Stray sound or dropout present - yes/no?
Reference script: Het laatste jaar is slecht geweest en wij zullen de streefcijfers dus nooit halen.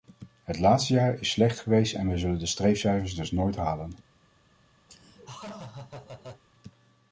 yes